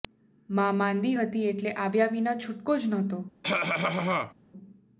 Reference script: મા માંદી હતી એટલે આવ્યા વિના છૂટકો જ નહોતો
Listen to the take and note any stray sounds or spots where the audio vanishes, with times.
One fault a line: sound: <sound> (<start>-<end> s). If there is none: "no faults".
sound: cough (3.4-4.3 s)